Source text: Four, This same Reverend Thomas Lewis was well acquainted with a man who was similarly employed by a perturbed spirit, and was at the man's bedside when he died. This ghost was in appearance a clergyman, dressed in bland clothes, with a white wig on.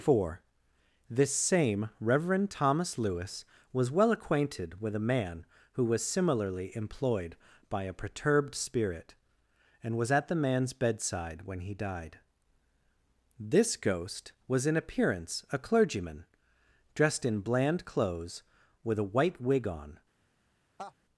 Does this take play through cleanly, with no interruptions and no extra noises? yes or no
no